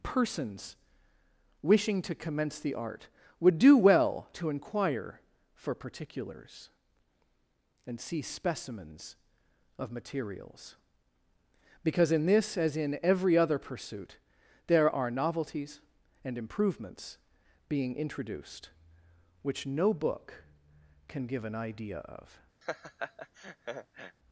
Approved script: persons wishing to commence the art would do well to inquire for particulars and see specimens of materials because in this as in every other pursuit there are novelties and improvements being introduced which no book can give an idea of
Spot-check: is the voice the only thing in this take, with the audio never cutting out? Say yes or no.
no